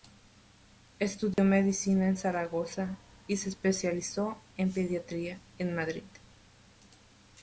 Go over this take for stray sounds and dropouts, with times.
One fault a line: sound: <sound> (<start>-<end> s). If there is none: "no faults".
sound: dropout (1.3-1.4 s)